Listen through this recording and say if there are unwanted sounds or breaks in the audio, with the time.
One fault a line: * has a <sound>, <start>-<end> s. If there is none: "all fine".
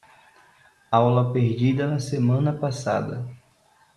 all fine